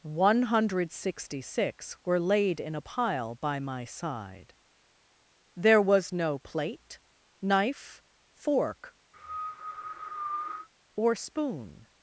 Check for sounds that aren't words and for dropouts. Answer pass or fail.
fail